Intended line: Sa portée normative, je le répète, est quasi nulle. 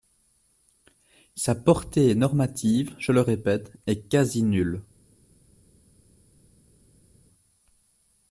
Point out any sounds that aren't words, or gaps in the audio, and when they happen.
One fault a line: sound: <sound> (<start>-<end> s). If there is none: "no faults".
no faults